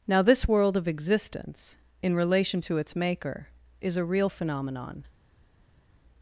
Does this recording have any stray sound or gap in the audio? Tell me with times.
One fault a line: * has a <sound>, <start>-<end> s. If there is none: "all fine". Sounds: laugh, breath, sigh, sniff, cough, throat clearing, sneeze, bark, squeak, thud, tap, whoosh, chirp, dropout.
all fine